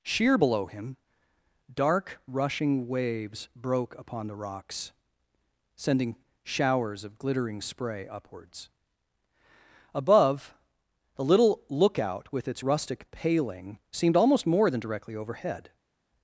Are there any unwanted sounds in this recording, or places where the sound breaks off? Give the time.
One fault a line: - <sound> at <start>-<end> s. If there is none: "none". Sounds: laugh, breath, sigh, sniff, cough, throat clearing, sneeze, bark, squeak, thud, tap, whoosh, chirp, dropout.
none